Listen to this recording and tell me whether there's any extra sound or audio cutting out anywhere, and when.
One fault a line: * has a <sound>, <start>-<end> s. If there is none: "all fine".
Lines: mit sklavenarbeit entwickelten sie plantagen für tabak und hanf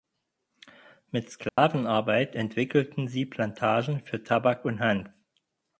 * has a dropout, 1.5-1.6 s